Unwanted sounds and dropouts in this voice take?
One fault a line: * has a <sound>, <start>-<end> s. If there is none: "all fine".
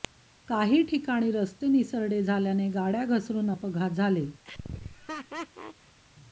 * has a laugh, 4.4-6.0 s